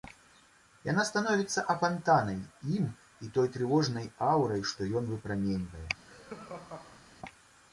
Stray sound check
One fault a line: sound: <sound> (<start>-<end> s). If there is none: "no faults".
sound: laugh (6.1-7.1 s)